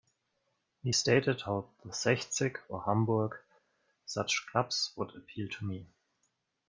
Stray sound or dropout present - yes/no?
no